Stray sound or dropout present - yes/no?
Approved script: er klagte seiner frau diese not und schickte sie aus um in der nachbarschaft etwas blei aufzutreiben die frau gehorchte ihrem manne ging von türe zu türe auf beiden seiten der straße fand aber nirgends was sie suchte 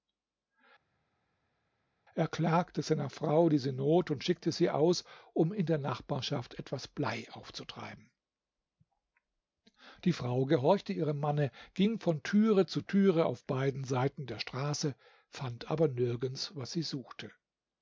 no